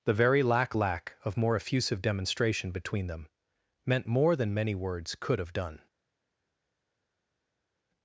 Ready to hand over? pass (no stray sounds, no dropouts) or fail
pass